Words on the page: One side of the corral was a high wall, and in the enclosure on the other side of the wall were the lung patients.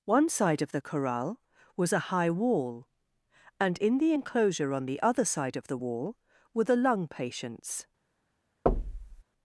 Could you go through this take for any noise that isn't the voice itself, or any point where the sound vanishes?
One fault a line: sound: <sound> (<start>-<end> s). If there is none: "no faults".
sound: thud (8.7-9.2 s)